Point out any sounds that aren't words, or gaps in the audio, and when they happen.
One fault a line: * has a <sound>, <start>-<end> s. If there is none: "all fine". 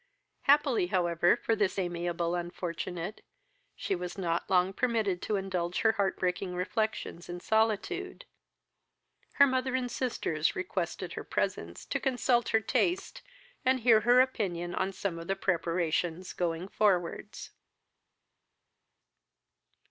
all fine